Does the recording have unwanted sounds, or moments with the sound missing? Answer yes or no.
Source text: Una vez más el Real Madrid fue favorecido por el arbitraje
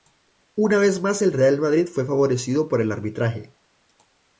no